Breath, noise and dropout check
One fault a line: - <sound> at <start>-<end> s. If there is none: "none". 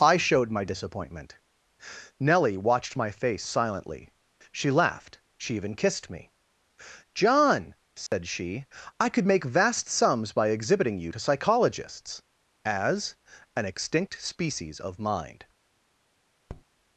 - dropout at 8.1-8.1 s
- tap at 16.5-16.6 s